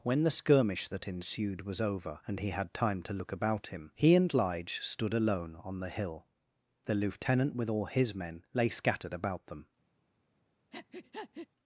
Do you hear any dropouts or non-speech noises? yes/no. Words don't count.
yes